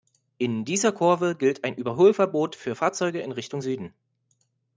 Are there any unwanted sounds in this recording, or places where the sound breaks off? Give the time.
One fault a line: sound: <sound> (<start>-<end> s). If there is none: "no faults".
no faults